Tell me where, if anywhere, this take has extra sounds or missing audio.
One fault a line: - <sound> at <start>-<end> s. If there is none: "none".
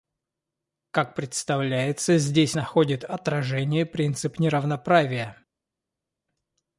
none